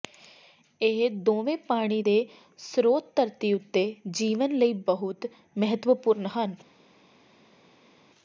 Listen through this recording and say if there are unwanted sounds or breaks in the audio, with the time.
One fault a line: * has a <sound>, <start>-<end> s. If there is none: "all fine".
all fine